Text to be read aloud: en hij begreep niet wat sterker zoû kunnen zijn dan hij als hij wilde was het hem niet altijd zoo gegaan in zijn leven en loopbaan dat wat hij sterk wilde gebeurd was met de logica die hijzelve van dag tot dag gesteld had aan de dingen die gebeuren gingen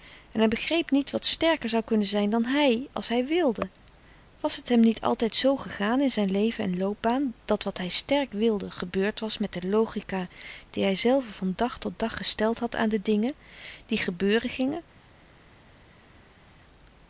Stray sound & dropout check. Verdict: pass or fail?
pass